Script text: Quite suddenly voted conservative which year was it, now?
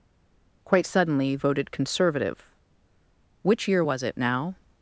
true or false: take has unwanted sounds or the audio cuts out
false